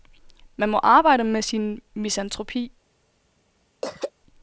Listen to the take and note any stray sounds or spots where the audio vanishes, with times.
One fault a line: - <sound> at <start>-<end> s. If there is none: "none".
- throat clearing at 3.8-4.1 s